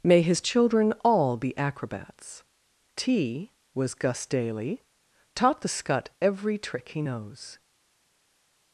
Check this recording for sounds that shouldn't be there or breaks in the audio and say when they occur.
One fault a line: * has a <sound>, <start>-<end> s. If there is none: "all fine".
all fine